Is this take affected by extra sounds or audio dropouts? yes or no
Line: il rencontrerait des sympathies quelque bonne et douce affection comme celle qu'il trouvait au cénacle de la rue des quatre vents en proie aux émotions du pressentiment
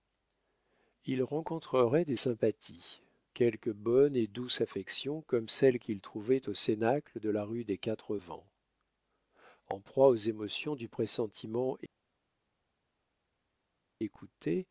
no